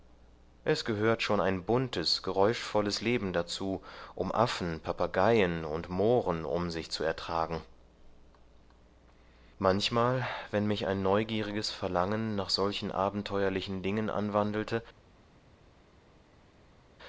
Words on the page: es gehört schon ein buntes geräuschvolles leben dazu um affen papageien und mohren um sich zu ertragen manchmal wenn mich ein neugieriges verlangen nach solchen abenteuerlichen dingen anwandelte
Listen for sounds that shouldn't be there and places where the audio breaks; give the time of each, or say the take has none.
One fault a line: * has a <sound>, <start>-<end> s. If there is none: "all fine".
all fine